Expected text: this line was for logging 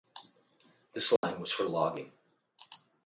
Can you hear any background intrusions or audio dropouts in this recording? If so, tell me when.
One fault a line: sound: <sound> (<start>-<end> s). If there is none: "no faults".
sound: dropout (1.2-1.2 s)